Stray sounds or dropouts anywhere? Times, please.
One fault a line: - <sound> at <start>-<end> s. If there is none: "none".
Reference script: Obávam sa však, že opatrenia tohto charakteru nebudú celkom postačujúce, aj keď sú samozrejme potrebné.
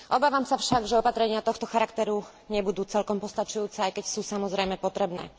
none